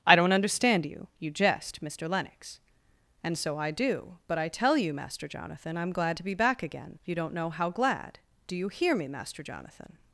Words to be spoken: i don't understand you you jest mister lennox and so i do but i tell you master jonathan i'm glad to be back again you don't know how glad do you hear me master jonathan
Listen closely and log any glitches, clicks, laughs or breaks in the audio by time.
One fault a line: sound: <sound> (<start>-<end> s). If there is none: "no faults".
no faults